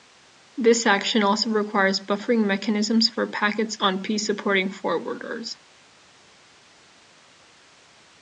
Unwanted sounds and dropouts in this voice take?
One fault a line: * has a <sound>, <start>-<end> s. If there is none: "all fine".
all fine